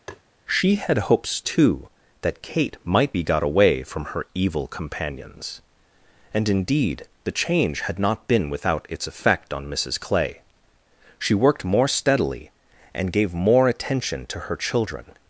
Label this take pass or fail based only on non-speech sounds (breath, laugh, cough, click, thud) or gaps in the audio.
fail